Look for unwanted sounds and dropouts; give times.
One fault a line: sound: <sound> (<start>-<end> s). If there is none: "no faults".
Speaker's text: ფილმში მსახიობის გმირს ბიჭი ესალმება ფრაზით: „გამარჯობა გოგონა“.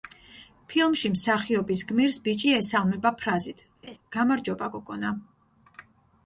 sound: laugh (3.8-4.0 s)